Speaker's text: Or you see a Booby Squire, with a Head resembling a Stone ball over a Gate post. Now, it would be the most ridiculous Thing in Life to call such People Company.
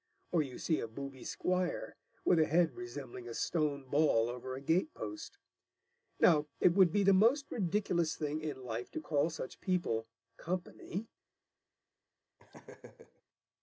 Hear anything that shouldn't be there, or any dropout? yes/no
yes